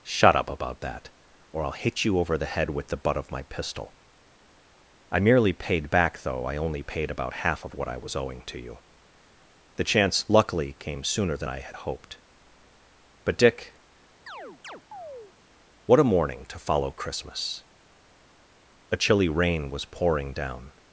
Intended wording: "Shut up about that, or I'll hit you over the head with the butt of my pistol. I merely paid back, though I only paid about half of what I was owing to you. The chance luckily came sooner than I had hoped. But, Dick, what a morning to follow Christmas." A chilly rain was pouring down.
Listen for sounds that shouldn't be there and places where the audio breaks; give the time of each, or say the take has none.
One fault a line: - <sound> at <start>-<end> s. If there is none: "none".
- chirp at 14.3-15.3 s